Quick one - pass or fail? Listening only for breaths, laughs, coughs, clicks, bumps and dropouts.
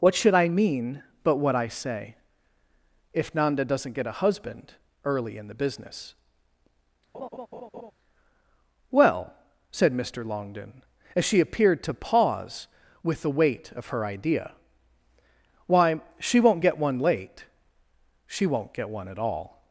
fail